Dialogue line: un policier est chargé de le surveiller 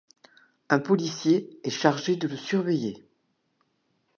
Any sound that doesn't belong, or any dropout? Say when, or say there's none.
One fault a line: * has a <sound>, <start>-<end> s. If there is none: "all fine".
all fine